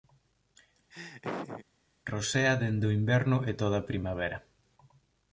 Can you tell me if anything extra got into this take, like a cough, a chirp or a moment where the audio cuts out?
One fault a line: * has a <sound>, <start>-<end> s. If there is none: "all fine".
* has a laugh, 0.9-1.7 s